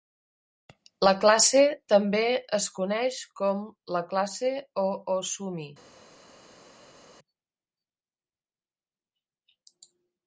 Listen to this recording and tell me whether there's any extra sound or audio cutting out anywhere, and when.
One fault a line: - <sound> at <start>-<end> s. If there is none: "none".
none